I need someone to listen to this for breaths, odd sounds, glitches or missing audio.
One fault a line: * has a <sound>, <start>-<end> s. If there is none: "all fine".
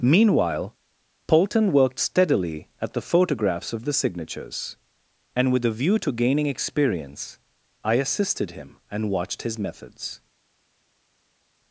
all fine